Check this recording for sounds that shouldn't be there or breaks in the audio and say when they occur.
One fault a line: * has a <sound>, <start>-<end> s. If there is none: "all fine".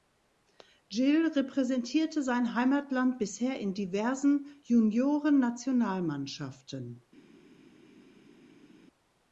all fine